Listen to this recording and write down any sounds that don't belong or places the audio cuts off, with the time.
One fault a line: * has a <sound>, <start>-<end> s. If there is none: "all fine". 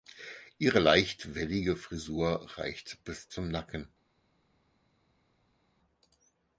all fine